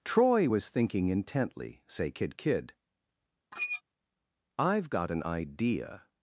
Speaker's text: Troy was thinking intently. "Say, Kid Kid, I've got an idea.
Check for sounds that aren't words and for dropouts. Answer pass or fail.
fail